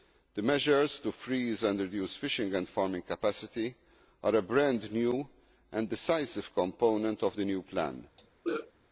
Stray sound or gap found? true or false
true